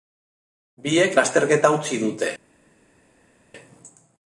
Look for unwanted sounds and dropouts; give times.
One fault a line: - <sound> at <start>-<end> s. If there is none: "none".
none